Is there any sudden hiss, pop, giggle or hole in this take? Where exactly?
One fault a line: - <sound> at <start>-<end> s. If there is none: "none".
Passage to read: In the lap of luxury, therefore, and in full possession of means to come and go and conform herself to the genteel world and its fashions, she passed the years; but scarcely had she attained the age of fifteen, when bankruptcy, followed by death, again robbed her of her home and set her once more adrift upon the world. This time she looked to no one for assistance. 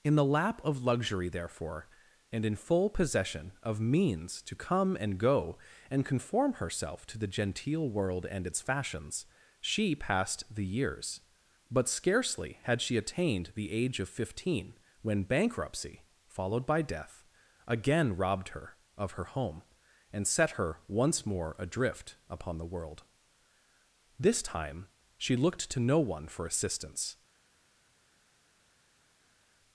none